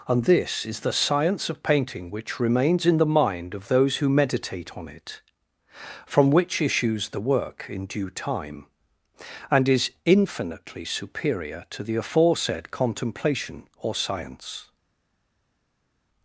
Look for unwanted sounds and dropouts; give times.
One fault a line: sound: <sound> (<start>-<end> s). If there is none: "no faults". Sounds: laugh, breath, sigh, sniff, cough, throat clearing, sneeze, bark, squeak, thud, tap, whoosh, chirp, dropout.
no faults